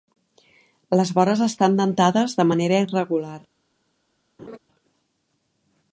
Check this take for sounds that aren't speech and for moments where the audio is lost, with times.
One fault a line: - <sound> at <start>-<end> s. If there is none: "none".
- laugh at 4.4-4.6 s